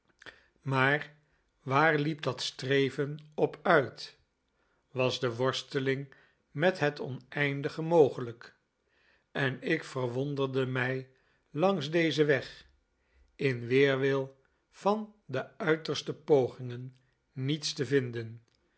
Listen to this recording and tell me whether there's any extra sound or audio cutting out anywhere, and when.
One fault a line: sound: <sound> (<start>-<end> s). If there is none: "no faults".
no faults